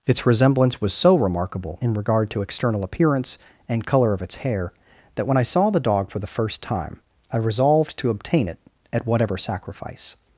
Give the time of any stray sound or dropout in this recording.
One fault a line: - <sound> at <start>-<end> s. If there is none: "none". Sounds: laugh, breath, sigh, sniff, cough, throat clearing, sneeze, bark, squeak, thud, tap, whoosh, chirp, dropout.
none